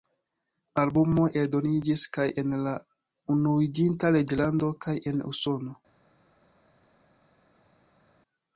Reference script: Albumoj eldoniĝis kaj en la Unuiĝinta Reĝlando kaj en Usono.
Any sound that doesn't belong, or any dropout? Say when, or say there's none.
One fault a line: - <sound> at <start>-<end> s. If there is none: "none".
none